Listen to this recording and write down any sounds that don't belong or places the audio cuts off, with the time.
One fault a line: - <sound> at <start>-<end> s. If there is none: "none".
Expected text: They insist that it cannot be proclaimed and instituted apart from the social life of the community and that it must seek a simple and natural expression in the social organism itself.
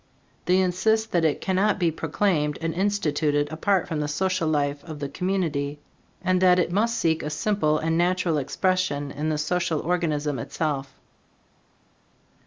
none